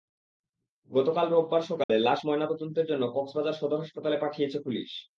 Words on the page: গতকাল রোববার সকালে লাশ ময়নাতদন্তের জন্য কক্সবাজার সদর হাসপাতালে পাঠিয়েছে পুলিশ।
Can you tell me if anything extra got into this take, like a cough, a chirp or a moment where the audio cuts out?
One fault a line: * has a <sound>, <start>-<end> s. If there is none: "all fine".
* has a dropout, 1.8-1.9 s